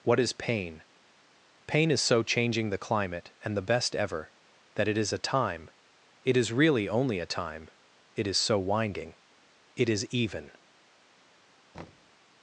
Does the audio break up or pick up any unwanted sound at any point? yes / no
yes